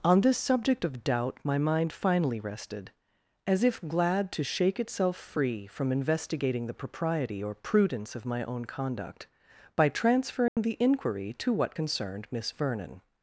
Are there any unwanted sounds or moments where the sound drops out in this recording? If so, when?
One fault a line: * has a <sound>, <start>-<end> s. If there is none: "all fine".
* has a dropout, 10.5-10.6 s